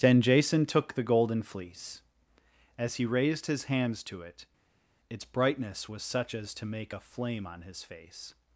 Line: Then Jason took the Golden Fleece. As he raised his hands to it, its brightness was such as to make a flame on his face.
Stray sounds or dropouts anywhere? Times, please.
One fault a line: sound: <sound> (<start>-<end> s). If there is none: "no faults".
no faults